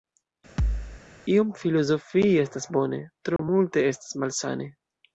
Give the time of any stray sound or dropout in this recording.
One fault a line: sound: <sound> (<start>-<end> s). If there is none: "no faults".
sound: thud (0.6-1.0 s)
sound: dropout (3.4-3.4 s)